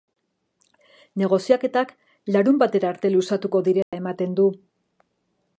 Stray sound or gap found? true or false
true